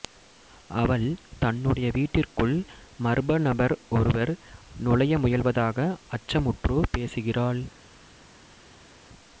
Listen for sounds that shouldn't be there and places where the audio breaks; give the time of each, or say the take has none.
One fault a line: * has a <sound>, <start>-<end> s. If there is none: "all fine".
all fine